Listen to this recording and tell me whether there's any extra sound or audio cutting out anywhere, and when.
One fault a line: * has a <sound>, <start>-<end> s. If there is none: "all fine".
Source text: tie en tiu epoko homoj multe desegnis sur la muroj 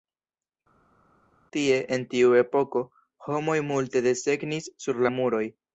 all fine